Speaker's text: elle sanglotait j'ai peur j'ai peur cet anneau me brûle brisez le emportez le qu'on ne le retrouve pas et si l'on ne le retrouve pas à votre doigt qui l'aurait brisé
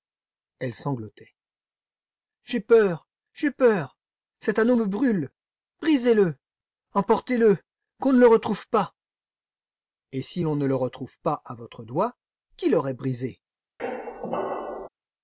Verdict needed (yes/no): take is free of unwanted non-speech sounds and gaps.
no